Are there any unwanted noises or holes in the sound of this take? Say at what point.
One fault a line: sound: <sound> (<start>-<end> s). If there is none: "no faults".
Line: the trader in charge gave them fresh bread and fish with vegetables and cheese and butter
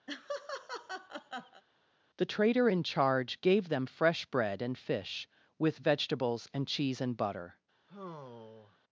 sound: laugh (0.1-1.6 s)
sound: sigh (7.9-8.8 s)